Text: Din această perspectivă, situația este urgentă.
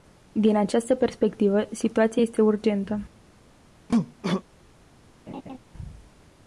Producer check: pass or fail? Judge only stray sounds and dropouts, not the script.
fail